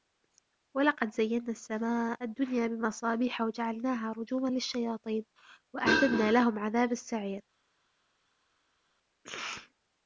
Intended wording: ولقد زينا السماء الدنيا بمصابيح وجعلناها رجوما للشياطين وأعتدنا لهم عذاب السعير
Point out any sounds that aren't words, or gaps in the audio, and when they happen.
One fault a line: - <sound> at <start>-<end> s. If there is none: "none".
none